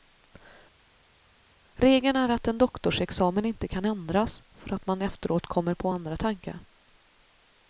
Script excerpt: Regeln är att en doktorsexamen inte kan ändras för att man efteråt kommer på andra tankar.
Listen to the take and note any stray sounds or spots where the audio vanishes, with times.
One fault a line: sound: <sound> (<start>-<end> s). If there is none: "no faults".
no faults